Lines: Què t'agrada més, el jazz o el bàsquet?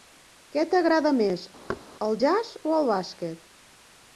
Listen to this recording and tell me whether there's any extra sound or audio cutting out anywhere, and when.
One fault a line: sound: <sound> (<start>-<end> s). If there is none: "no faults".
sound: thud (1.7-1.8 s)